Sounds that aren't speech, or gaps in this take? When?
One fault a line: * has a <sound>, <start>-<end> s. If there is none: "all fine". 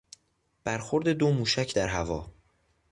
all fine